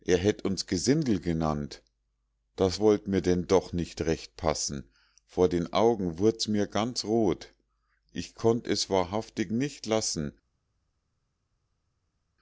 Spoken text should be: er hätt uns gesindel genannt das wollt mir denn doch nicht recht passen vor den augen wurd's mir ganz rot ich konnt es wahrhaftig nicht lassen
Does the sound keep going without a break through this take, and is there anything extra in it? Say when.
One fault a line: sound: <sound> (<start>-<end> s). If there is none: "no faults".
no faults